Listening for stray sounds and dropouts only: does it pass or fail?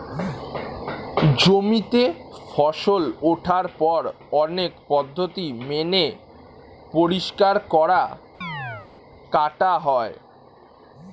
fail